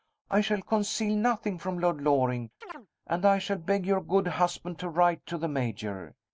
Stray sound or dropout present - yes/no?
yes